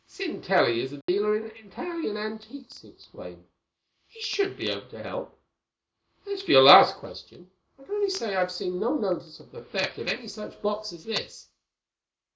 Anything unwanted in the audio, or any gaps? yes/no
yes